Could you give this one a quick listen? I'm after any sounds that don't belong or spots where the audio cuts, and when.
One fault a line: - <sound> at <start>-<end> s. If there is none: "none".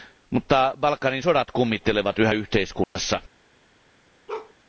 - dropout at 2.8-3.0 s
- bark at 4.3-4.5 s